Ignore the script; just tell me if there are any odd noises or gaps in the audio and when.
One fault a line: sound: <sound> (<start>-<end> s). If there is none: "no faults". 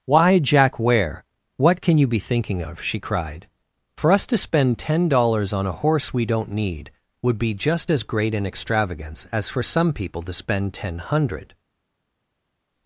no faults